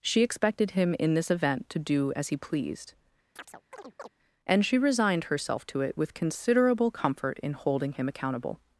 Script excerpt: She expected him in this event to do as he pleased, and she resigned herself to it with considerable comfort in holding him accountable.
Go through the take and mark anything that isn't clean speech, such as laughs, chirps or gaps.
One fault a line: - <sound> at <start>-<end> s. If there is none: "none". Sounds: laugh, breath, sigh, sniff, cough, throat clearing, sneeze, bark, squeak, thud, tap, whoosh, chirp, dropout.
- chirp at 3.4-4.1 s